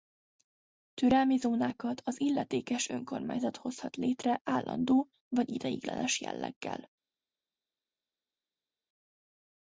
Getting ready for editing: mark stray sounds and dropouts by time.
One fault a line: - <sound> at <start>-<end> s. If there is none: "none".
none